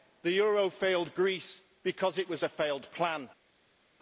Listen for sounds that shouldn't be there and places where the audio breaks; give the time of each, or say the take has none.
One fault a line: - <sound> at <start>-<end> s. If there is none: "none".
none